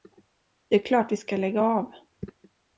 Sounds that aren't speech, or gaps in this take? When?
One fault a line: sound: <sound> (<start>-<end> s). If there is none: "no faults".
no faults